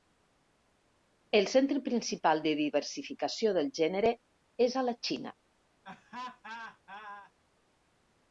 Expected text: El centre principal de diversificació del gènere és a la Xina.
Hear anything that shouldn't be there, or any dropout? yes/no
yes